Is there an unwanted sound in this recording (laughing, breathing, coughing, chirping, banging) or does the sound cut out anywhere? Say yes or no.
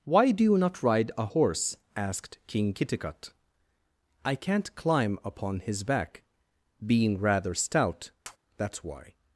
yes